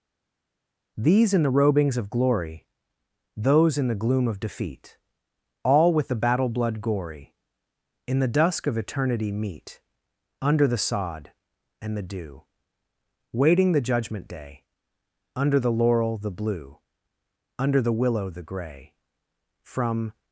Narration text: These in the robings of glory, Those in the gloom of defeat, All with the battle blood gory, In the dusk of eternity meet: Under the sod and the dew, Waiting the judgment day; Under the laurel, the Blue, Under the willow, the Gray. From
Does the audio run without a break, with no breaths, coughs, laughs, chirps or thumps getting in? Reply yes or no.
yes